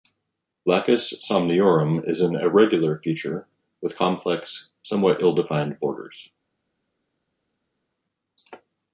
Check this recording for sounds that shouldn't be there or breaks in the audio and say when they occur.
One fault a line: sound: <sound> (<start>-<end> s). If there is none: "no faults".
no faults